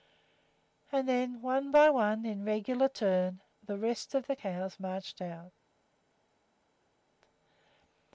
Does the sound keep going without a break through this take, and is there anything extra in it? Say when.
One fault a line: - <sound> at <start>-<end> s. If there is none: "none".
none